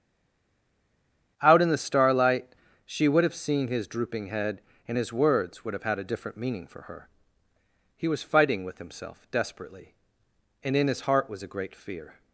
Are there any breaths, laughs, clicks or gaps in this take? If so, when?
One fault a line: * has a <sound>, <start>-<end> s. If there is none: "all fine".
all fine